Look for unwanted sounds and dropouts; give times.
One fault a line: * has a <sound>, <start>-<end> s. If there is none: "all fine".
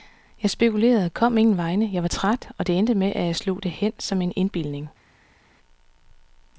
all fine